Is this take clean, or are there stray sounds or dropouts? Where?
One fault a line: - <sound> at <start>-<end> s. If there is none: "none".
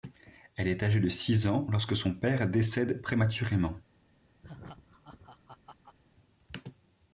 - laugh at 4.4-6.0 s